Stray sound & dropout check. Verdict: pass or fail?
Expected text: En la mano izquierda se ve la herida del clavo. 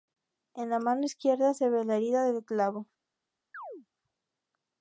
fail